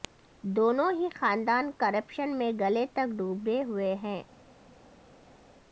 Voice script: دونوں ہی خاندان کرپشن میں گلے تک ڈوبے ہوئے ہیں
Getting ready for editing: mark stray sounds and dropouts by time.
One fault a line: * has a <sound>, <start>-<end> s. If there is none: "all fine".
all fine